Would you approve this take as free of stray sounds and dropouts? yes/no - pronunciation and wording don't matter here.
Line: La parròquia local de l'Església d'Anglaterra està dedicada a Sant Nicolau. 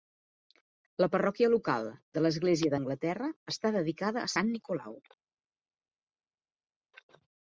yes